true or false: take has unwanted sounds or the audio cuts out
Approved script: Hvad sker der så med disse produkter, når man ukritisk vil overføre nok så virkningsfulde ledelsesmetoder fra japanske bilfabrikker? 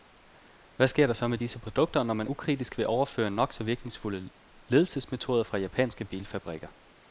false